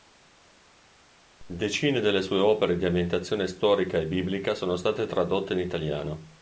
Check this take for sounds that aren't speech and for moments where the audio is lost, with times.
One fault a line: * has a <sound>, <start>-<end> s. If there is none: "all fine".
all fine